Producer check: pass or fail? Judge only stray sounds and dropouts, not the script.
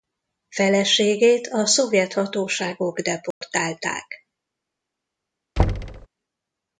fail